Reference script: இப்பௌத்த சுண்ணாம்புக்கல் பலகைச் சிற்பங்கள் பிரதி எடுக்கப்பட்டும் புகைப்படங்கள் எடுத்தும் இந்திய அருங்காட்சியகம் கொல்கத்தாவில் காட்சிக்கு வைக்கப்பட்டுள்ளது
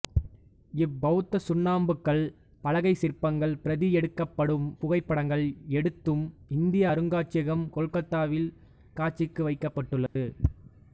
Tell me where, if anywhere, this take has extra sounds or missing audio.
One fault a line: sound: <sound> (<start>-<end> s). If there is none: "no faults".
sound: dropout (10.1-10.2 s)